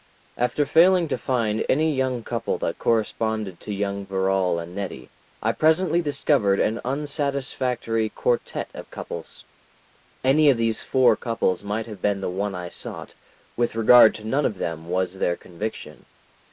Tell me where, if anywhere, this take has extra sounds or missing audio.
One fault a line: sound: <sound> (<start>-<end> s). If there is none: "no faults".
no faults